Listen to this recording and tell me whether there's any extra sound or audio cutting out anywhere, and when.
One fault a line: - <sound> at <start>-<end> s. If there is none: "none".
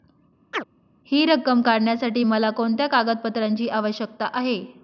- chirp at 0.5-0.6 s